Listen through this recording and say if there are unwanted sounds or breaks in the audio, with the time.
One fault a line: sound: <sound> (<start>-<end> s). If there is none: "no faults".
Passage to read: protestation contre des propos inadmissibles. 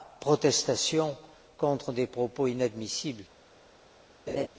sound: laugh (4.3-4.5 s)